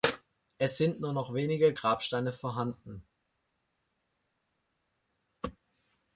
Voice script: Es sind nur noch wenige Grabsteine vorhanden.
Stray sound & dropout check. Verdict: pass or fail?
pass